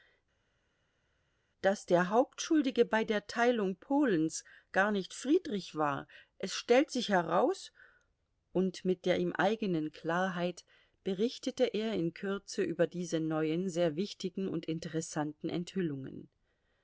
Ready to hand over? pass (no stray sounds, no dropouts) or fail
pass